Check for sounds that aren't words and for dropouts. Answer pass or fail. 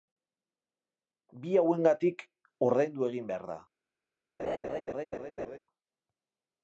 fail